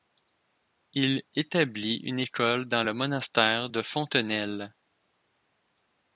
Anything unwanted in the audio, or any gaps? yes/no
no